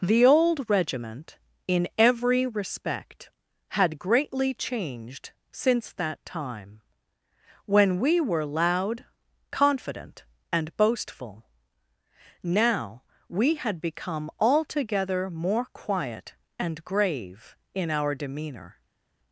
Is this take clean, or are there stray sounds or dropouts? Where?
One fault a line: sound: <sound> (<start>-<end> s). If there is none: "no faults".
no faults